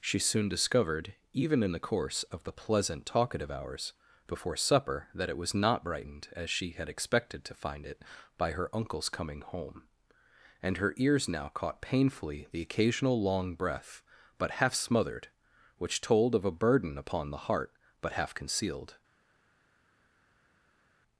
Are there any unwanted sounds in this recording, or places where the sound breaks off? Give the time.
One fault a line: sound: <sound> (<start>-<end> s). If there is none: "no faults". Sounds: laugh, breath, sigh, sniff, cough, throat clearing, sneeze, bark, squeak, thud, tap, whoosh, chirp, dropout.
no faults